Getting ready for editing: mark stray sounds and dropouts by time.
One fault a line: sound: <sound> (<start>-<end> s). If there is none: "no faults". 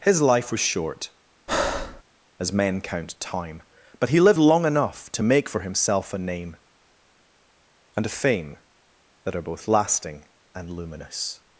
sound: breath (1.5-2.0 s)